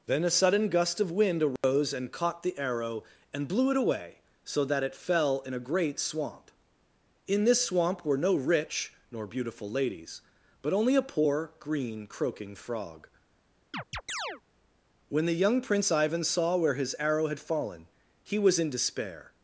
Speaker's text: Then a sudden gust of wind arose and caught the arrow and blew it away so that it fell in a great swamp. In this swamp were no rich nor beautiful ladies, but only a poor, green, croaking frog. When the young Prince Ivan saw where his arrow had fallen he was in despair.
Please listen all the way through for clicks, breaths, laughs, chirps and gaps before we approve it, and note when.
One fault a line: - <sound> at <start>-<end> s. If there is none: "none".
- dropout at 1.6-1.6 s
- chirp at 13.7-14.4 s